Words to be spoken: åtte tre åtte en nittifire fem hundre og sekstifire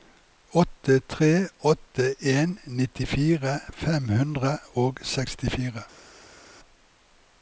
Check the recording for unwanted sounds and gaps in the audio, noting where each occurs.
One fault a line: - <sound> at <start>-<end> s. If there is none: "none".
none